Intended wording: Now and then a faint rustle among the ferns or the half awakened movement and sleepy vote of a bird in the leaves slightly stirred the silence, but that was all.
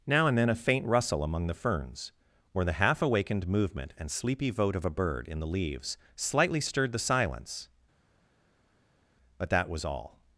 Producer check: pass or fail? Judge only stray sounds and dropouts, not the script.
pass